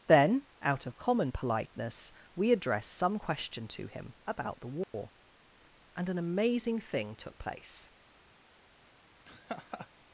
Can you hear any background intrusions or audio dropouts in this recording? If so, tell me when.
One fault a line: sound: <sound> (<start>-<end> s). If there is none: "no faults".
sound: dropout (4.8-4.9 s)
sound: laugh (9.2-9.9 s)